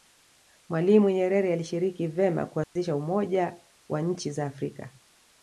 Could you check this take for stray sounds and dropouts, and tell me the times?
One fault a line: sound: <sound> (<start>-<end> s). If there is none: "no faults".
sound: dropout (2.6-2.8 s)